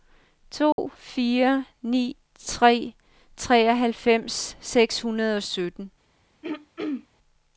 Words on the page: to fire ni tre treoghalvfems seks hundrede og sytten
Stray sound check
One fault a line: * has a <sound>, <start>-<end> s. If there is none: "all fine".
* has a dropout, 0.7-0.8 s
* has a throat clearing, 6.4-7.1 s